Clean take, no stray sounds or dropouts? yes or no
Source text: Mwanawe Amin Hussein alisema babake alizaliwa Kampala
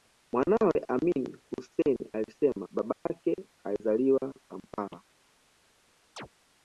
no